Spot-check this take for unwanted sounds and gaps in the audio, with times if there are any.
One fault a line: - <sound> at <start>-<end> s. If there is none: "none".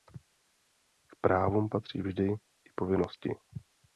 none